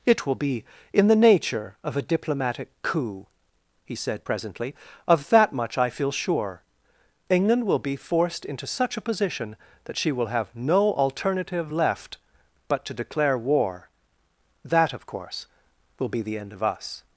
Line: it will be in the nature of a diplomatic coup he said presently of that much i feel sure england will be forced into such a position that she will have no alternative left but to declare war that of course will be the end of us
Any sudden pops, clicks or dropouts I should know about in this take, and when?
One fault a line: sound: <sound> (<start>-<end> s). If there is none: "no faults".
no faults